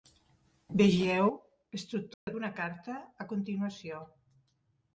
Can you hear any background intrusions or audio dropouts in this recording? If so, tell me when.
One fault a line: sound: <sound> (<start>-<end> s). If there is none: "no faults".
sound: dropout (2.1-2.3 s)